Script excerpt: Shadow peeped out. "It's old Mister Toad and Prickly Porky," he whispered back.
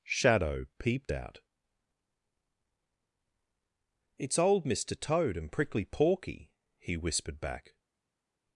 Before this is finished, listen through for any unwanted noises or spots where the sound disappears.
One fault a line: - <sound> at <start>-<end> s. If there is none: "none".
none